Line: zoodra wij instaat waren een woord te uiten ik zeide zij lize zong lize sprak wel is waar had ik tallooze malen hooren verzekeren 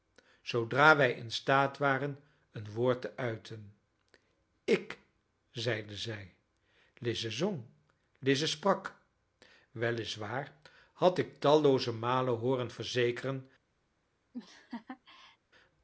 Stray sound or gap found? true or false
true